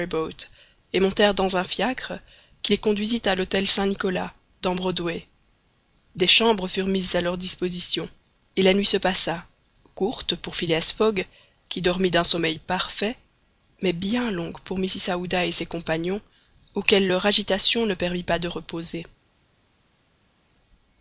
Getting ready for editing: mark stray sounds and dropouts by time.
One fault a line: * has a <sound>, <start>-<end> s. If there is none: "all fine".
all fine